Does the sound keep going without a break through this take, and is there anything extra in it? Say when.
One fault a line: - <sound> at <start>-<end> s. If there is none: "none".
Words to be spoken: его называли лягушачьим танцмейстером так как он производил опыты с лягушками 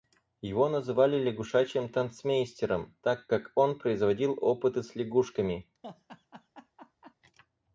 - laugh at 5.8-7.1 s